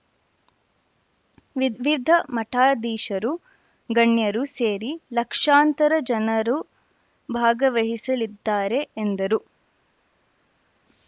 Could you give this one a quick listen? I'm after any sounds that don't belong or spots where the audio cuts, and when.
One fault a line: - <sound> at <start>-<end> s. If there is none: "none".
none